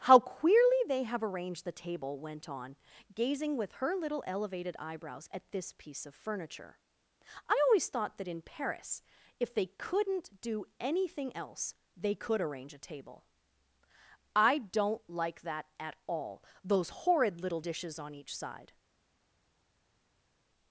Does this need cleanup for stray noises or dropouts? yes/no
no